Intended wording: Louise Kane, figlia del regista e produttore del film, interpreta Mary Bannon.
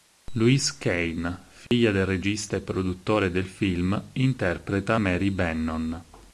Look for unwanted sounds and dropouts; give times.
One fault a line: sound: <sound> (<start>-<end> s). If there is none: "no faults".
sound: dropout (1.7-1.7 s)